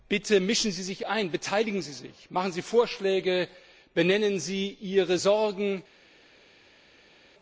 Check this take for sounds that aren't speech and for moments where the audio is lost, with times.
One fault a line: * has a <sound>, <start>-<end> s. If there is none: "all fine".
all fine